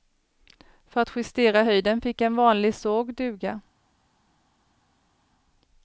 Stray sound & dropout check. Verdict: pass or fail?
pass